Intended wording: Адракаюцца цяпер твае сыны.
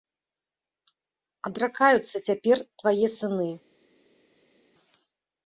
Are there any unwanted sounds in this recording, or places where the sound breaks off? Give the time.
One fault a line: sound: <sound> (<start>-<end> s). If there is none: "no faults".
no faults